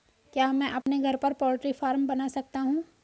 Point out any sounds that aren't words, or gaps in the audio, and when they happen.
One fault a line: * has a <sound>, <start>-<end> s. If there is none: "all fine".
* has a dropout, 0.8-0.9 s